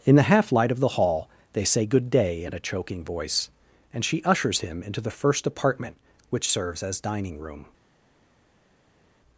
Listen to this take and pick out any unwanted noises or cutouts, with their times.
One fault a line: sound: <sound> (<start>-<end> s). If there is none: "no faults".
no faults